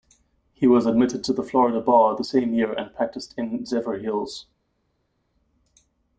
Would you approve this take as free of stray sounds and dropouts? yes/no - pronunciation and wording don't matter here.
yes